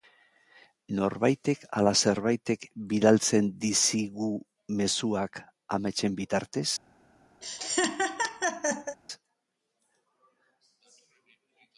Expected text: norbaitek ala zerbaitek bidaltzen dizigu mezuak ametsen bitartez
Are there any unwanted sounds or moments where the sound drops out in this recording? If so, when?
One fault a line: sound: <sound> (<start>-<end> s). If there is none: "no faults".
sound: laugh (7.4-9.0 s)